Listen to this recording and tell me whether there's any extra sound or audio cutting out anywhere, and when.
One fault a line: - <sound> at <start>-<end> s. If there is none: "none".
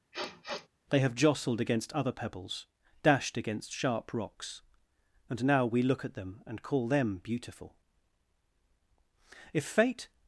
- sniff at 0.1-0.7 s